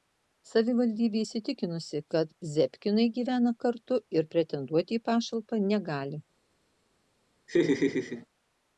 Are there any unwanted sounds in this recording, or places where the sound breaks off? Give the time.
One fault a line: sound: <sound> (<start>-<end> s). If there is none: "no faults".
sound: laugh (7.5-8.3 s)